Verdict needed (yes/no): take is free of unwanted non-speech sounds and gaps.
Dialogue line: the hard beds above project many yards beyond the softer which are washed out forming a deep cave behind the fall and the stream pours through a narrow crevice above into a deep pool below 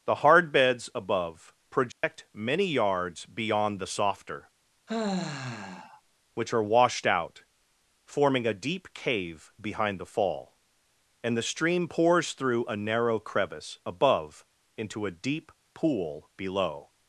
no